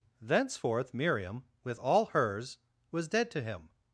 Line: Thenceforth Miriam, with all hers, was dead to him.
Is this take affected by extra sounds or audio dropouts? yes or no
no